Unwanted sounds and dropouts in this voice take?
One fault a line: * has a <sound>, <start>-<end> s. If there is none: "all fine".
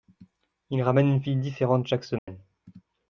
* has a dropout, 2.2-2.3 s